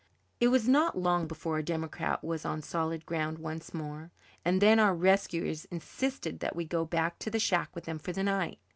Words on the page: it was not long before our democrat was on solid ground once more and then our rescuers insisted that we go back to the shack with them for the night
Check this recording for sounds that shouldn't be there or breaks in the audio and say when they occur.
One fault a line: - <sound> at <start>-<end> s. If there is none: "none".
none